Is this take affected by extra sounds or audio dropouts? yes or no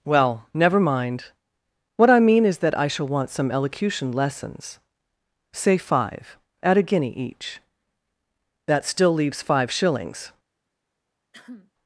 yes